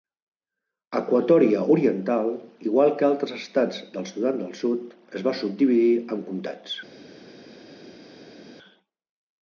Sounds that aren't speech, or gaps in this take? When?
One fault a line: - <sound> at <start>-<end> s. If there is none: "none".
none